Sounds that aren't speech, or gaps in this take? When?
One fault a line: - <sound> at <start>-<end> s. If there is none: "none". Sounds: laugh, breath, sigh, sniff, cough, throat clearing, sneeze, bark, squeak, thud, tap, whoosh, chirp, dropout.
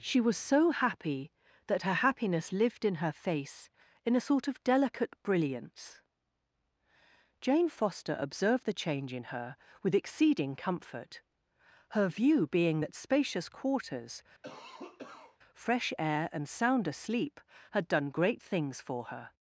- cough at 14.4-15.4 s